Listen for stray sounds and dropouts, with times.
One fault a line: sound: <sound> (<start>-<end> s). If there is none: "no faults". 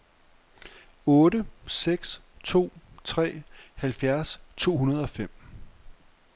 no faults